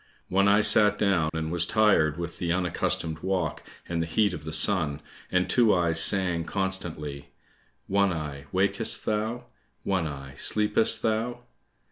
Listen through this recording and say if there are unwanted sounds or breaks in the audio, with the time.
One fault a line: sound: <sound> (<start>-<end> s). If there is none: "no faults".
sound: dropout (1.3-1.3 s)